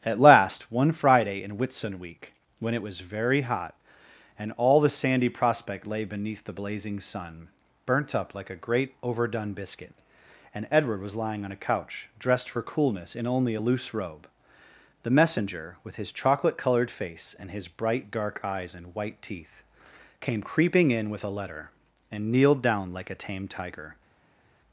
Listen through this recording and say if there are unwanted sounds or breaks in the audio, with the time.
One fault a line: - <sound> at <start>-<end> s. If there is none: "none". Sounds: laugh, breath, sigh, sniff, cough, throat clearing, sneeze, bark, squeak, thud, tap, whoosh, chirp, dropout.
none